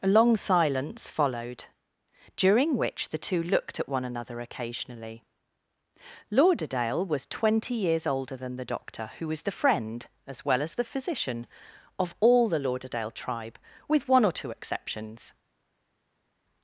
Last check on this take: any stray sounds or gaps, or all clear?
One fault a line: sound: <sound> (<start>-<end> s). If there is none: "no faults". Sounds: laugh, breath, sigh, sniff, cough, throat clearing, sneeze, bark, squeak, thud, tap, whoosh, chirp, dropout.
no faults